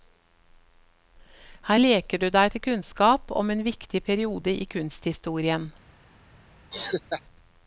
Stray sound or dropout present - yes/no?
yes